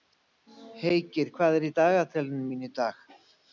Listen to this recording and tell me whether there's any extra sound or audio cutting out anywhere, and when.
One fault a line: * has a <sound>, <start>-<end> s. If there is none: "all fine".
all fine